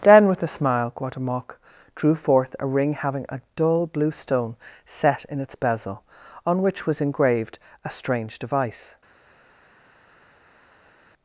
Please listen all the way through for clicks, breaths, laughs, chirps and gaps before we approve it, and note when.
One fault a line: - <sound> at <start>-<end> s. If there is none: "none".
none